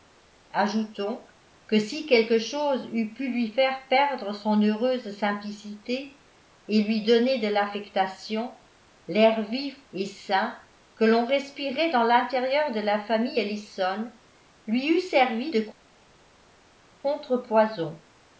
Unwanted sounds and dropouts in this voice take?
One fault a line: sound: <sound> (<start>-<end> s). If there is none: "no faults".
no faults